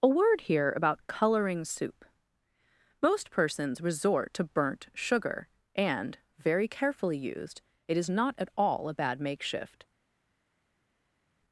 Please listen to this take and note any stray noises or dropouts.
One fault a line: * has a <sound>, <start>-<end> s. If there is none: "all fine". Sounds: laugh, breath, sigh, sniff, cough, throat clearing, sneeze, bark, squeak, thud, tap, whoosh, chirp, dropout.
all fine